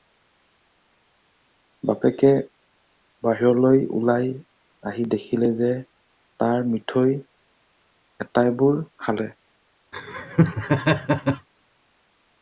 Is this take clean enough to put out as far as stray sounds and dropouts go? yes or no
no